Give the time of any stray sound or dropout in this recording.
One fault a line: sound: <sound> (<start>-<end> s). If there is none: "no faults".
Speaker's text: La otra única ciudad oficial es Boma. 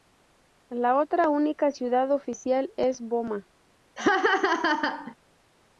sound: laugh (4.0-5.1 s)